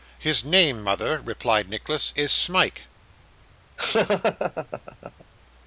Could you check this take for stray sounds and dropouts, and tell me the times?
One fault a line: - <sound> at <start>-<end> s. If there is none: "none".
- laugh at 3.8-5.2 s